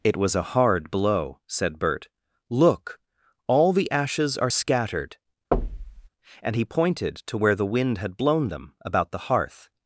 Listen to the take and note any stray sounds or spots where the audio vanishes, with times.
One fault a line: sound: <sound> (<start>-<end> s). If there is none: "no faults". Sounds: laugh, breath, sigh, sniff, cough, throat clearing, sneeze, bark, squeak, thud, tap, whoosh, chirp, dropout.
sound: thud (5.5-6.1 s)